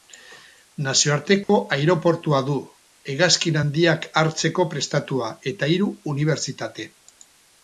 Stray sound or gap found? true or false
true